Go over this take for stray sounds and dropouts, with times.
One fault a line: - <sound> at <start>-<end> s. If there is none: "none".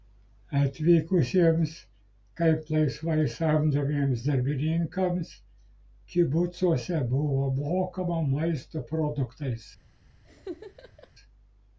- laugh at 10.2-11.1 s